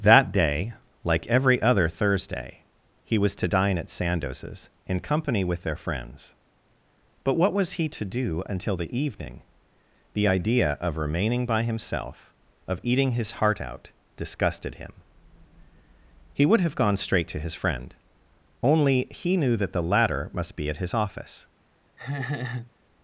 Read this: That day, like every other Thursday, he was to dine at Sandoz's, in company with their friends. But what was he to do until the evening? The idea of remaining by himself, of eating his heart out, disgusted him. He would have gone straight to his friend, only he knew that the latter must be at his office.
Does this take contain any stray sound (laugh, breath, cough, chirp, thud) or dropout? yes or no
yes